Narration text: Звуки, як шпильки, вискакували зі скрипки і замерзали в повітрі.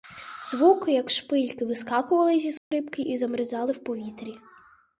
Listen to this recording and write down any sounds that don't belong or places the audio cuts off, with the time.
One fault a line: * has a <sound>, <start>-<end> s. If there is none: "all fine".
* has a dropout, 2.6-2.7 s